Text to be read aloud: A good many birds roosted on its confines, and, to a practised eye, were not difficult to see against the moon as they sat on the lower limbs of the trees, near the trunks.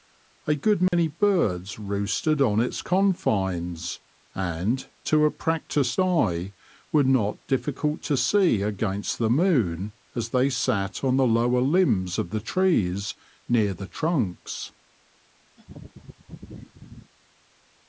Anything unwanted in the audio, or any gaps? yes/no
yes